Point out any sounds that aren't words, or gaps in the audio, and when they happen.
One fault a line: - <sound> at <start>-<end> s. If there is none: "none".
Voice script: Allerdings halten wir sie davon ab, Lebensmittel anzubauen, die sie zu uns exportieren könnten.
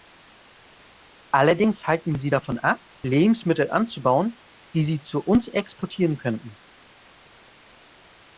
none